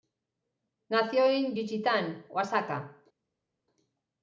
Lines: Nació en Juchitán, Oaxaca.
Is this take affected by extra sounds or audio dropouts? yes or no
no